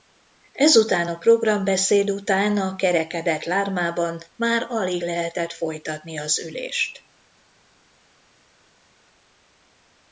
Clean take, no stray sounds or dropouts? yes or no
yes